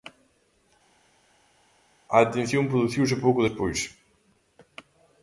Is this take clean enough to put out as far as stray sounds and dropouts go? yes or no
yes